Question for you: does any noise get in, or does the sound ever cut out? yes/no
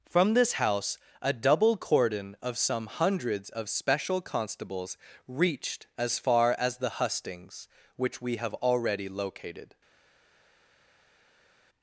no